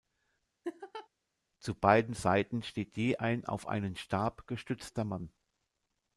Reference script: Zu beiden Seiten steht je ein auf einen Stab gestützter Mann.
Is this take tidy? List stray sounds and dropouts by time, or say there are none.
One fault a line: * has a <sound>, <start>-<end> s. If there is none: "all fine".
* has a laugh, 0.6-1.1 s